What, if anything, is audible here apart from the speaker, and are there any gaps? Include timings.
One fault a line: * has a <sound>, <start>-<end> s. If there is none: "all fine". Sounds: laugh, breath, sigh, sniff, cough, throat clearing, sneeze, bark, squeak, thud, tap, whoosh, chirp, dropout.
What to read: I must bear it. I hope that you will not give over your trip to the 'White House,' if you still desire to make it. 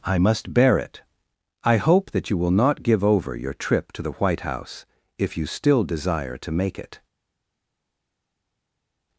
all fine